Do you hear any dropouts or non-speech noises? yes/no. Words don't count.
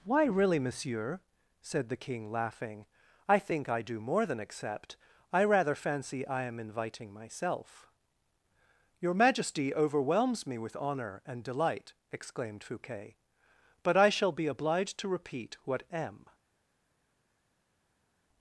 no